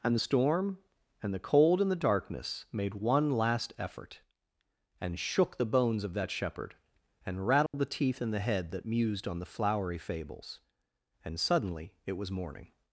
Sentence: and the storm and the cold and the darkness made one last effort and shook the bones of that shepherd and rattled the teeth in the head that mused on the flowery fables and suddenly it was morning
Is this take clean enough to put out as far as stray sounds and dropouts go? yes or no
no